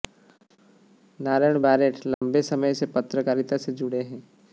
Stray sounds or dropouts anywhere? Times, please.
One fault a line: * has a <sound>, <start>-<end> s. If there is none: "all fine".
* has a dropout, 2.1-2.2 s